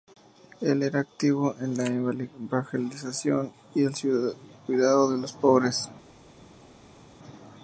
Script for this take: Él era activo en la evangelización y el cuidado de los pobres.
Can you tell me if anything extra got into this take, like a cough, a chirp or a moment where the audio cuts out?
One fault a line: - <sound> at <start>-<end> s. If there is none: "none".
none